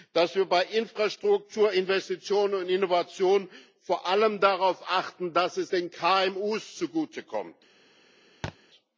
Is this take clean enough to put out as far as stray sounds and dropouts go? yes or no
no